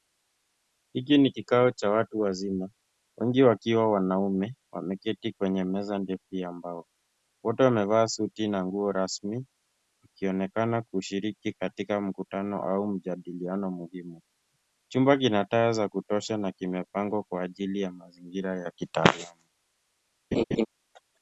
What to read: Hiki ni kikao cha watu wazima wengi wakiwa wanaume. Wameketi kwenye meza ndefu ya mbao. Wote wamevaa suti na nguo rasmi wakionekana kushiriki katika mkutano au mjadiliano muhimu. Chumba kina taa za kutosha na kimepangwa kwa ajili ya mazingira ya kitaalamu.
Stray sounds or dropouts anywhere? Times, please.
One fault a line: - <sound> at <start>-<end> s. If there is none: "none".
- laugh at 20.3-20.7 s